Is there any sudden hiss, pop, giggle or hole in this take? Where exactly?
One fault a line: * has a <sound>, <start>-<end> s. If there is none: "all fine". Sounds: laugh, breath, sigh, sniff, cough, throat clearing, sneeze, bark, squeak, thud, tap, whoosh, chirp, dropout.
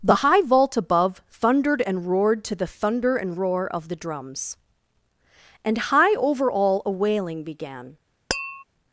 * has a tap, 8.3-8.6 s